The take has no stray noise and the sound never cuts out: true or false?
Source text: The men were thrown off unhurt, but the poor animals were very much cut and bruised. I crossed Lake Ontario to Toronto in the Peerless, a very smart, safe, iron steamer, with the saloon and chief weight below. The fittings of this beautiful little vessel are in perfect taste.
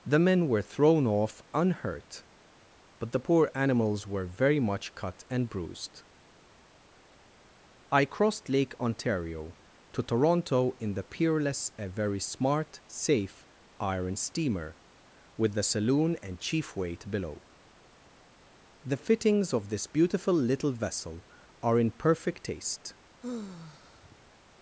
false